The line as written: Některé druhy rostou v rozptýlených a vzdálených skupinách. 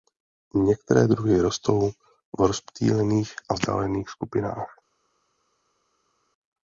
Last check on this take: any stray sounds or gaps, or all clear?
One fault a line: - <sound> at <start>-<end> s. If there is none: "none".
none